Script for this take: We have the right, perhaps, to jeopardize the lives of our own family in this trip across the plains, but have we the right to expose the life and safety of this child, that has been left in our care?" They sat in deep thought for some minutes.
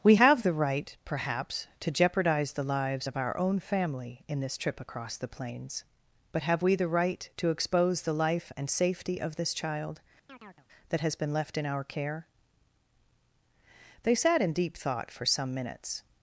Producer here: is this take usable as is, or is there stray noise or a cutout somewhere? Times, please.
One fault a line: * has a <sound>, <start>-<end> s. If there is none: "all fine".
* has a chirp, 10.3-10.7 s